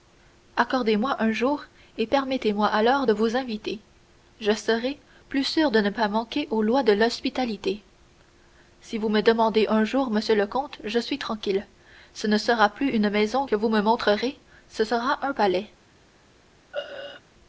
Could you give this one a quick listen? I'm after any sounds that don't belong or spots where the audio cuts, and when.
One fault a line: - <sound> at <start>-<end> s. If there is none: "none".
- throat clearing at 16.7-17.2 s